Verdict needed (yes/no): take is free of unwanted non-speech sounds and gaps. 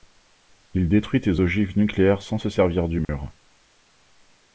no